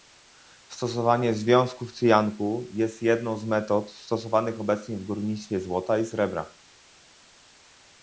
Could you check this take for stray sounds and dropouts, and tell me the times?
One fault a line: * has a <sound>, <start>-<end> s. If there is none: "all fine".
all fine